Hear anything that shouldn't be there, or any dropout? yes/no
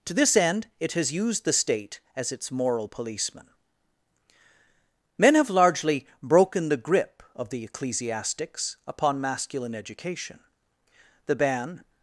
no